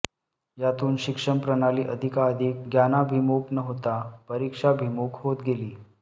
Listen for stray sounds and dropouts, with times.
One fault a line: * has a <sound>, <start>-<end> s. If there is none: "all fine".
all fine